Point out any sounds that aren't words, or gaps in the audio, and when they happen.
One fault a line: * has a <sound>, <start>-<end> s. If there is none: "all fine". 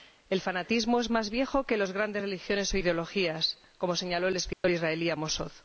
* has a dropout, 4.5-4.6 s